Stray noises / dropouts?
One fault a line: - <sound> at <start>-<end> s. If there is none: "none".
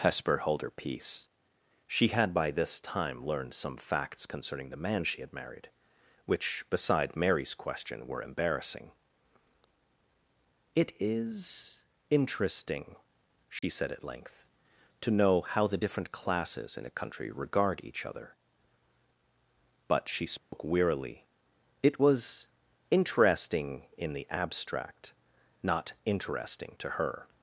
- dropout at 13.6-13.6 s
- dropout at 20.4-20.5 s